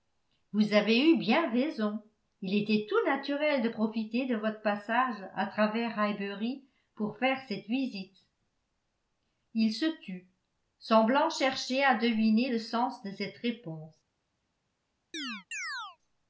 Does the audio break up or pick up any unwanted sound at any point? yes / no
yes